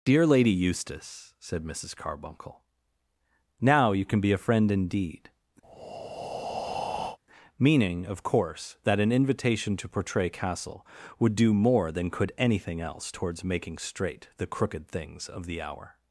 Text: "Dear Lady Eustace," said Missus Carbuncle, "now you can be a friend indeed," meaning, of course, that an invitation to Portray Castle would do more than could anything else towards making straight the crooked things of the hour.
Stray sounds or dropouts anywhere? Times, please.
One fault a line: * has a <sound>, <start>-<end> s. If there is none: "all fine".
* has a breath, 5.6-7.2 s